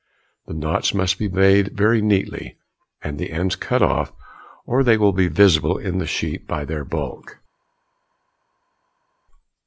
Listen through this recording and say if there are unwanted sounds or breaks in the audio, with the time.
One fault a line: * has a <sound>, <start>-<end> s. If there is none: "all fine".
all fine